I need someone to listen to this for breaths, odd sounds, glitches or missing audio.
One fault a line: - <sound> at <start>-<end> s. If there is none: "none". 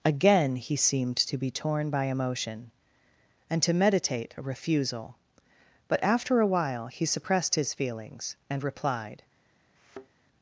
- thud at 9.8-10.1 s